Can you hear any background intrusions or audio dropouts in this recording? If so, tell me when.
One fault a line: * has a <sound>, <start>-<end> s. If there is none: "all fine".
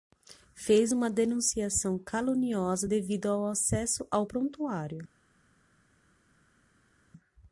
all fine